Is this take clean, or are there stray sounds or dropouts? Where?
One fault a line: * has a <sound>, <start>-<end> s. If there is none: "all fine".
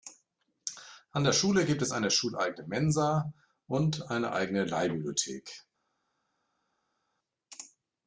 all fine